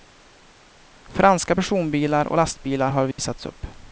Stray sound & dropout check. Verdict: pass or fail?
fail